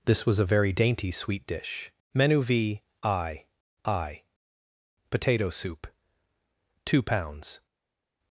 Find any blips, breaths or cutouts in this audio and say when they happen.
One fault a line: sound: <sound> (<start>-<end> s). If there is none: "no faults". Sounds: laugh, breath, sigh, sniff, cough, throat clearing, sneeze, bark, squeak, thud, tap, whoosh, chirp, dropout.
no faults